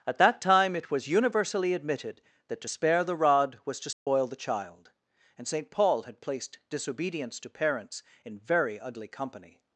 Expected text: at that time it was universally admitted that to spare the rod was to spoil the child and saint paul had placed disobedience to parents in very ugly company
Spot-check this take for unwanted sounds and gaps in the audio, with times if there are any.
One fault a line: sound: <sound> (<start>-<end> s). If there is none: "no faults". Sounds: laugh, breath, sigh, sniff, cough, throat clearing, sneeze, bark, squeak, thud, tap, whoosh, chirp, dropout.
sound: dropout (3.9-4.1 s)